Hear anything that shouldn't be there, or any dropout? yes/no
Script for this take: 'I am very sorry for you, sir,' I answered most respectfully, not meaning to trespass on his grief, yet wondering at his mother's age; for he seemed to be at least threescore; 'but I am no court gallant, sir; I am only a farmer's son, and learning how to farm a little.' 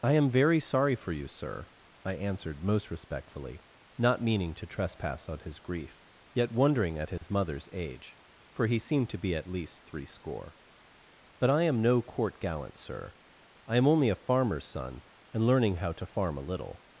yes